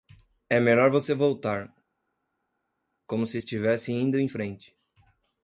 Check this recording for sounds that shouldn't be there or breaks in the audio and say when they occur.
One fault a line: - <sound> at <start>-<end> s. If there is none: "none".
none